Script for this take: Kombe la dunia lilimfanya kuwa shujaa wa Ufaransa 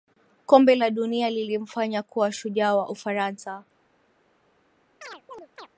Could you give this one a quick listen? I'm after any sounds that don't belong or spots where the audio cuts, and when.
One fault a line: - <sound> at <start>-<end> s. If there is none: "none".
- chirp at 5.0-5.7 s